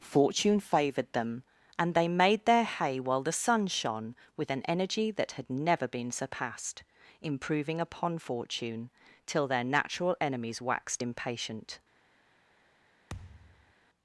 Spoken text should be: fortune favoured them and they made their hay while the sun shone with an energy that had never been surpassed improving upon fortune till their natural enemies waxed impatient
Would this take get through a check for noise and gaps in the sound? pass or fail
fail